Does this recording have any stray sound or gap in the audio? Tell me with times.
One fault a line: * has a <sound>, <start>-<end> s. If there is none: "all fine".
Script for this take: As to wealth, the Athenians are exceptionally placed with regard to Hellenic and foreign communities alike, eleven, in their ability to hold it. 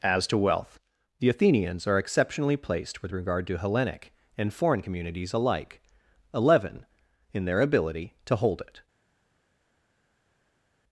all fine